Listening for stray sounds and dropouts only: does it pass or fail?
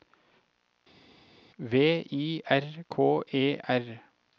pass